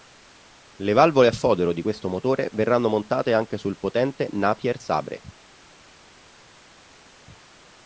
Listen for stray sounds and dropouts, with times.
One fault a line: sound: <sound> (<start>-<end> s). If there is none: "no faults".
no faults